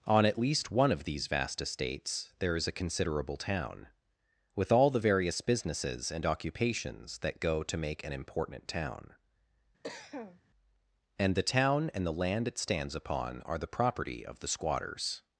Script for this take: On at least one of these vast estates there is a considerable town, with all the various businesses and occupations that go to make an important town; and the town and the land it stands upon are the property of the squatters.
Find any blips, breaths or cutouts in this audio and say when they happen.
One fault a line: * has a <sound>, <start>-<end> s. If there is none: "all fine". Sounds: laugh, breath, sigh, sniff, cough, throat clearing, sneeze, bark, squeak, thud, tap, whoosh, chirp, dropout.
* has a cough, 9.8-10.4 s